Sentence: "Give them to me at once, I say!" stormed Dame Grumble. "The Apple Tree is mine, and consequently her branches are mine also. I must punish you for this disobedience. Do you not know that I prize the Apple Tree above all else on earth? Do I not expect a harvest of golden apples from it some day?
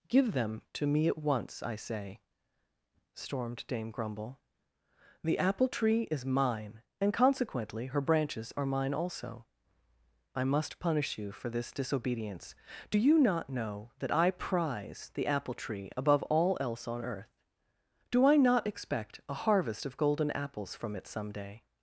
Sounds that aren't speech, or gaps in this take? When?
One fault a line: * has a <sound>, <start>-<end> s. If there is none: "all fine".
all fine